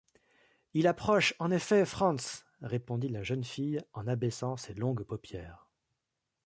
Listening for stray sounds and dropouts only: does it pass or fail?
pass